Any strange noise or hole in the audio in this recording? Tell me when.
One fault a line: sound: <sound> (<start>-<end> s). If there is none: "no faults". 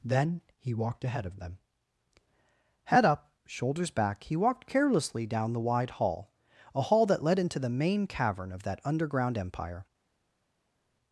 no faults